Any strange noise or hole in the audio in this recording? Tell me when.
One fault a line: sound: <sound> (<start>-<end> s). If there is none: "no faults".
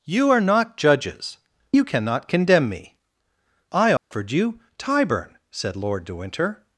sound: dropout (4.0-4.1 s)